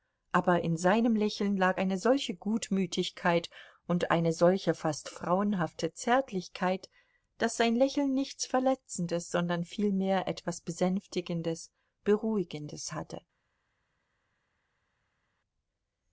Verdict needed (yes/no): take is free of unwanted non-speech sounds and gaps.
yes